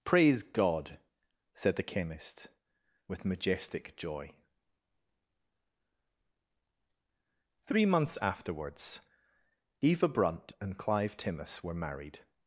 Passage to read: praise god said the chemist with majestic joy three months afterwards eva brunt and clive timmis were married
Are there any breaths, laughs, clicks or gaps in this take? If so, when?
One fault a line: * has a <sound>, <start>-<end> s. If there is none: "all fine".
all fine